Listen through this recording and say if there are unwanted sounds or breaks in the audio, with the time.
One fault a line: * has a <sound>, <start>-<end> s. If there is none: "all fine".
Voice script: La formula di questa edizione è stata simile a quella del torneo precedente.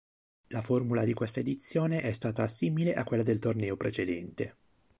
all fine